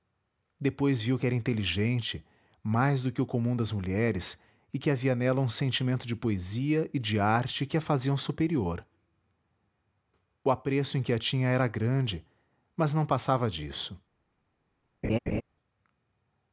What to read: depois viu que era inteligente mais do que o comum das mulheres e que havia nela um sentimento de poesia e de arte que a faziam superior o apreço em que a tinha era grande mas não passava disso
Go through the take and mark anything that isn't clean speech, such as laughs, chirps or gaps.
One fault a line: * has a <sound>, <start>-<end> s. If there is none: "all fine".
* has a laugh, 15.0-15.4 s